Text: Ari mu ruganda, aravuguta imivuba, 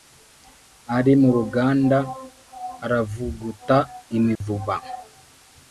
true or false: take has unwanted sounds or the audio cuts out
true